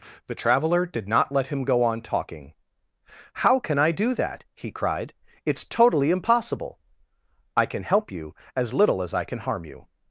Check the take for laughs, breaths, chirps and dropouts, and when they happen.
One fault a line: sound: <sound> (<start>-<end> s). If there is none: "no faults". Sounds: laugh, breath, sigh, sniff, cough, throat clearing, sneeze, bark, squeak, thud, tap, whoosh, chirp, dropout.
no faults